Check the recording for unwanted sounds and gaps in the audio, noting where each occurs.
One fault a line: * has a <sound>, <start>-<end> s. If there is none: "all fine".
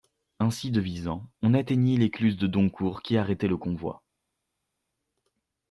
all fine